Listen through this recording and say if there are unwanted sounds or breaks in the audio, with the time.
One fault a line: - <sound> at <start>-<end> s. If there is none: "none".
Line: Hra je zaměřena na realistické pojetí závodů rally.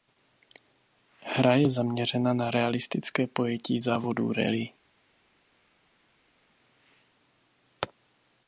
none